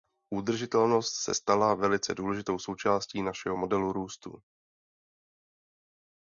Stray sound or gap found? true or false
false